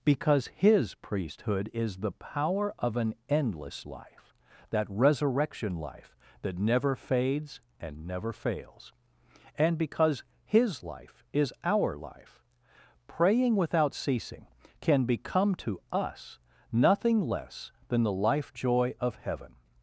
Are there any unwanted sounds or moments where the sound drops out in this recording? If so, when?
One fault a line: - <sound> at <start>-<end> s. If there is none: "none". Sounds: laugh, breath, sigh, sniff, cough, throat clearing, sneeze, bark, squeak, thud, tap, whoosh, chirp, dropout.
none